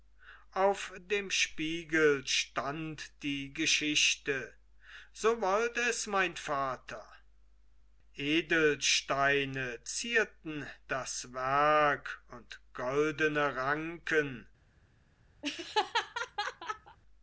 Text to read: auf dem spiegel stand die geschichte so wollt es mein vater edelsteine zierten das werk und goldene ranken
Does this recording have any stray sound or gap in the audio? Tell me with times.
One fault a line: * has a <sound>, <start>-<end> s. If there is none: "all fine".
* has a laugh, 15.4-17.0 s